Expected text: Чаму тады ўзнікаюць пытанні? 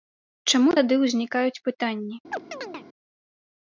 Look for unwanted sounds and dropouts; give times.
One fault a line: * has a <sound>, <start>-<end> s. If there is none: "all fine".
* has a chirp, 2.3-2.9 s